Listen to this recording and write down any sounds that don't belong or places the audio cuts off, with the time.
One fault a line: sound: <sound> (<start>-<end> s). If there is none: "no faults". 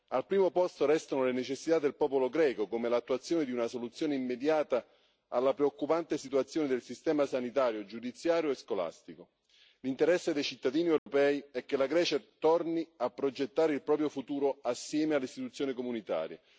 sound: dropout (11.0-11.1 s)